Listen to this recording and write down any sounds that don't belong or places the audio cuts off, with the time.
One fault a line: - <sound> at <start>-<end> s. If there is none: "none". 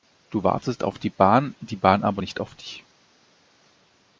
none